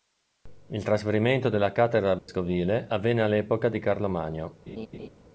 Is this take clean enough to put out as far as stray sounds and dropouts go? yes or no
no